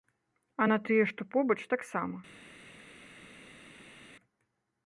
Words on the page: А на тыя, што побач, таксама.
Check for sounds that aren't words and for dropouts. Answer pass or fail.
pass